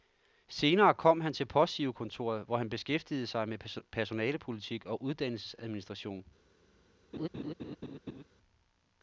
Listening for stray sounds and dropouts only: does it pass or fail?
fail